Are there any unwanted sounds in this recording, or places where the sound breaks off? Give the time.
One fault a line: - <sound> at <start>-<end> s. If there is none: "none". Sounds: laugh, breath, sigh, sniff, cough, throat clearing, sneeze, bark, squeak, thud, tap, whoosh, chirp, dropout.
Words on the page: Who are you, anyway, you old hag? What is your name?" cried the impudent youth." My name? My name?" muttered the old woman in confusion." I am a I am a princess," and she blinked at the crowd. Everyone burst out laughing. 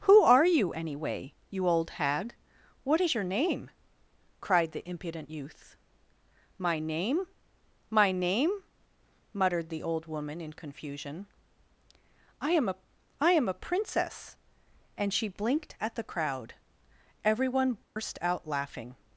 - dropout at 17.8-18.0 s